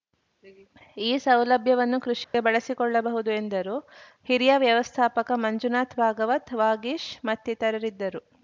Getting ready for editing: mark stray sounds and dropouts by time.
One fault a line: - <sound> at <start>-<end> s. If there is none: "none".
- dropout at 2.2-2.3 s